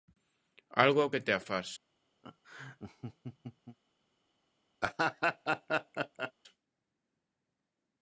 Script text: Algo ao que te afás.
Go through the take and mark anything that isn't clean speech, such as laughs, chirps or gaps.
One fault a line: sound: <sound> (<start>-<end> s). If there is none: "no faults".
sound: laugh (2.2-3.8 s)
sound: laugh (4.8-6.3 s)